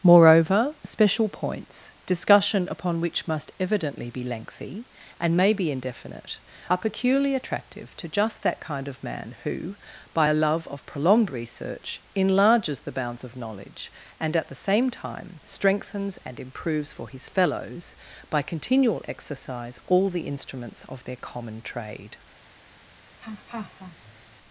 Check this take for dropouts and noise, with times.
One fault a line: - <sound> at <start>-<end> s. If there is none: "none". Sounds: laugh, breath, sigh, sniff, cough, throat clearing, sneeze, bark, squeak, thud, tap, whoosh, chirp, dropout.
- laugh at 23.2-24.4 s